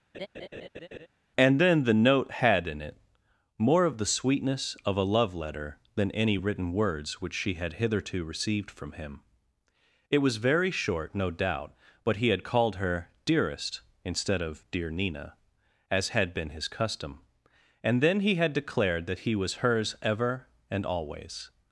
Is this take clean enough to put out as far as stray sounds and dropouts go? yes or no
no